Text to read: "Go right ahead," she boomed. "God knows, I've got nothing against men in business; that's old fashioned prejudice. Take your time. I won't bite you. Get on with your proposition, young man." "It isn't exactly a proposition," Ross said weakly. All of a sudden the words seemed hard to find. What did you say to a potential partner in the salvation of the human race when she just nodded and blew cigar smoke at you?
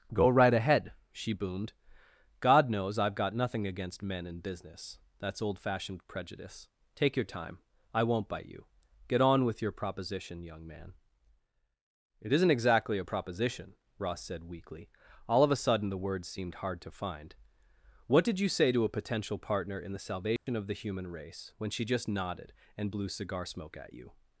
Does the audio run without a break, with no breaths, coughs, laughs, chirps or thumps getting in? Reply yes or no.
no